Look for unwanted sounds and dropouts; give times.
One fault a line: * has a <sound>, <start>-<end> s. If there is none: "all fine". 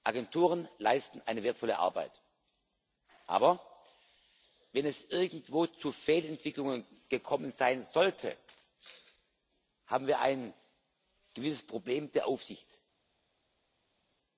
all fine